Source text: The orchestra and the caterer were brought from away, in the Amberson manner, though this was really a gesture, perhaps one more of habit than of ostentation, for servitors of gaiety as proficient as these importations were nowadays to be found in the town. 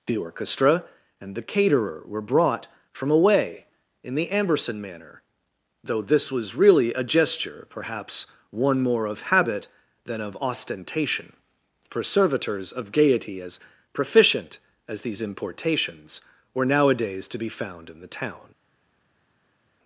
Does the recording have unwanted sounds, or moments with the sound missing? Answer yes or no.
no